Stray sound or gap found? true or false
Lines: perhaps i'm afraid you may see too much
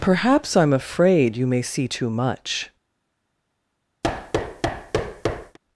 true